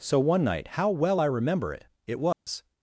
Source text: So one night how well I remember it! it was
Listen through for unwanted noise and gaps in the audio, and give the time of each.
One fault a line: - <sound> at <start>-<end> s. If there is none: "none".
- dropout at 2.3-2.5 s